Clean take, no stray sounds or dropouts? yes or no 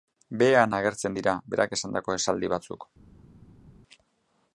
yes